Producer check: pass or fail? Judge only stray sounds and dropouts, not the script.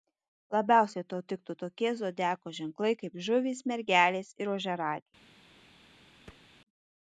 fail